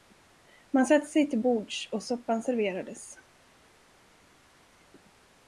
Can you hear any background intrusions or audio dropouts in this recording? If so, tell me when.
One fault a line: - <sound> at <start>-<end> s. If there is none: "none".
none